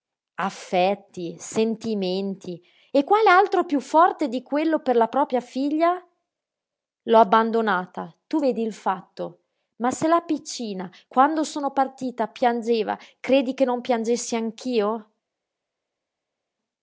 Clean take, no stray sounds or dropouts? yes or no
yes